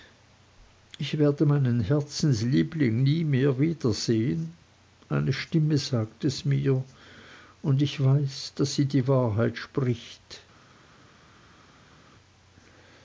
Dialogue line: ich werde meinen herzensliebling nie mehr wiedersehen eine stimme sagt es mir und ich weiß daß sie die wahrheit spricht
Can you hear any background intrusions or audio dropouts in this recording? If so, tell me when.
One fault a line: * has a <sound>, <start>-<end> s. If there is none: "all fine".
all fine